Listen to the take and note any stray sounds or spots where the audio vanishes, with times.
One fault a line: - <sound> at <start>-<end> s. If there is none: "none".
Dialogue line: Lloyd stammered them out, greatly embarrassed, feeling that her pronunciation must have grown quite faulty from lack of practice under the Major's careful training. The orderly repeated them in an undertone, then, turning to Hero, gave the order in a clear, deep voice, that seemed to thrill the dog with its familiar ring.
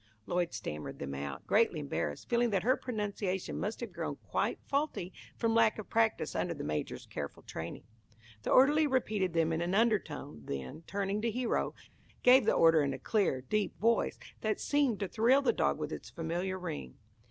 none